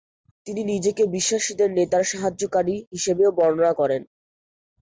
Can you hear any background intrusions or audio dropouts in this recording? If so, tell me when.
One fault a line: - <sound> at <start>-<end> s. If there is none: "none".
none